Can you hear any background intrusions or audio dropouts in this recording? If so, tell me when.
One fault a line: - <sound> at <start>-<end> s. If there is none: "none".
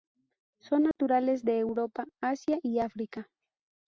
- dropout at 0.9-1.0 s